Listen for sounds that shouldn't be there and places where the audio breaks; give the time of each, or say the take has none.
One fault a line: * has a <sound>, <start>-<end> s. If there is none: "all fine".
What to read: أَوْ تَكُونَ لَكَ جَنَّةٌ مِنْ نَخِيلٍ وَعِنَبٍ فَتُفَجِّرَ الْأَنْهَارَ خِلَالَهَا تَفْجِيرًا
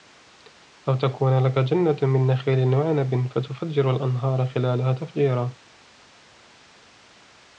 all fine